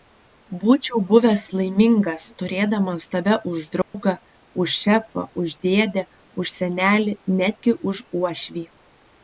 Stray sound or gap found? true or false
true